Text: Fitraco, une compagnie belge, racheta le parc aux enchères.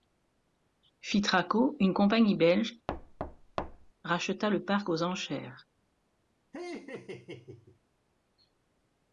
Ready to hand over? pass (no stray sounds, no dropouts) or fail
fail